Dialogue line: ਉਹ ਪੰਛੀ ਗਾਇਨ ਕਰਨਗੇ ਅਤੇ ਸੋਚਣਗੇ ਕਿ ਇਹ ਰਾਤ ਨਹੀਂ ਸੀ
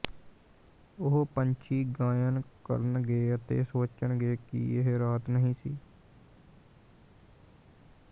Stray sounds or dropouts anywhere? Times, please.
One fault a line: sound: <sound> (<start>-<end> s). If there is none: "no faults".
no faults